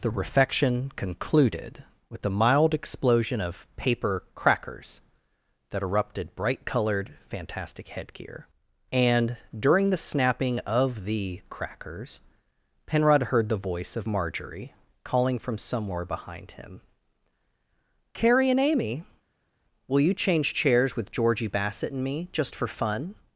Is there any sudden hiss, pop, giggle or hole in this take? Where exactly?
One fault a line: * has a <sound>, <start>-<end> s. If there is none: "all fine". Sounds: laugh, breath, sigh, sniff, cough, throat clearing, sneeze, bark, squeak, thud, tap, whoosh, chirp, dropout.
all fine